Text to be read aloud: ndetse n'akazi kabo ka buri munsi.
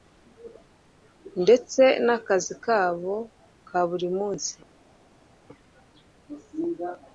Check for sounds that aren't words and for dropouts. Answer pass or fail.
pass